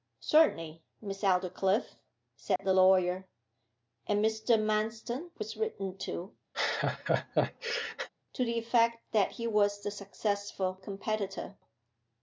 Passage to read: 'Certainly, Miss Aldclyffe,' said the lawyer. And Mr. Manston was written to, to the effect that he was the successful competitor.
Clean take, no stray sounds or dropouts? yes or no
no